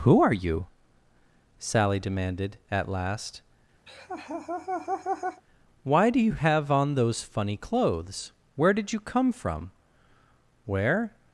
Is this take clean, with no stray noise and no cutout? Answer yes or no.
no